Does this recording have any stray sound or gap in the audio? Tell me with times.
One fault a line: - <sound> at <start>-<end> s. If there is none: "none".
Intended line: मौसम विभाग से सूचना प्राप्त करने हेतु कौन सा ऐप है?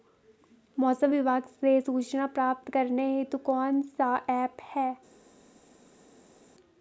none